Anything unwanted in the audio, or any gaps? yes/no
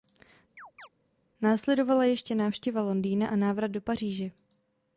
yes